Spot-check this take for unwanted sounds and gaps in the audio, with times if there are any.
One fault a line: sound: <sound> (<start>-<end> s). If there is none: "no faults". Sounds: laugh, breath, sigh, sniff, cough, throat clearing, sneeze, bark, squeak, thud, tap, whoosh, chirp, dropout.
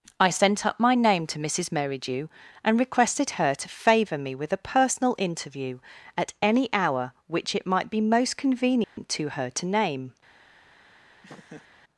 sound: dropout (8.8-9.0 s)
sound: laugh (11.2-11.7 s)